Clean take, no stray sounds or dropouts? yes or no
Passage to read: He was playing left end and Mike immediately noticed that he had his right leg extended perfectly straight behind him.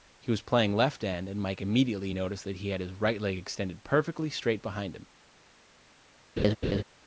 no